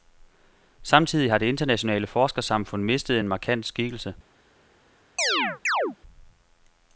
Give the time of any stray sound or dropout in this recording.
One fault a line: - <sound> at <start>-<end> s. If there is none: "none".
- chirp at 5.2-6.0 s